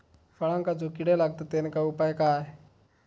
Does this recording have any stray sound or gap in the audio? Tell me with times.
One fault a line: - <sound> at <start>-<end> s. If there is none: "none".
none